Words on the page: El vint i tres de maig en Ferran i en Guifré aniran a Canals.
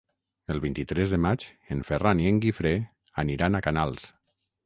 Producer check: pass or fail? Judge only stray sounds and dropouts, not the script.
pass